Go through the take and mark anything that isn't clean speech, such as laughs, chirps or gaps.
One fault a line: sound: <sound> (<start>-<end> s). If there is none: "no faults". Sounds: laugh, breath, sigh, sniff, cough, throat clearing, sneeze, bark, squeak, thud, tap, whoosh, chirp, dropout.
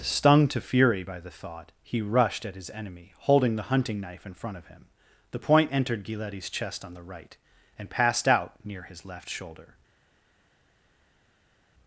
no faults